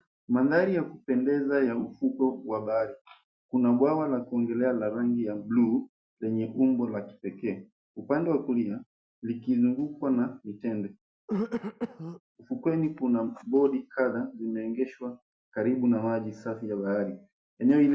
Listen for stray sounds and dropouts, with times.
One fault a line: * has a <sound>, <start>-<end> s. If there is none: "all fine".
* has a throat clearing, 11.3-12.2 s